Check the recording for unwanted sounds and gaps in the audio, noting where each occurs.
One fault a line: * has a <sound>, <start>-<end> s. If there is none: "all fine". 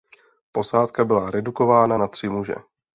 all fine